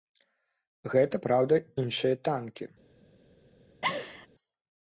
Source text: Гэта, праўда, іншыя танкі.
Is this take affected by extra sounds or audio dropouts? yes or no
yes